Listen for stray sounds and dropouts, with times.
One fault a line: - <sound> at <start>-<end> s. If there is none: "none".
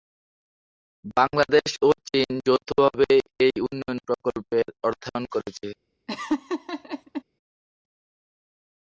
- laugh at 6.1-7.2 s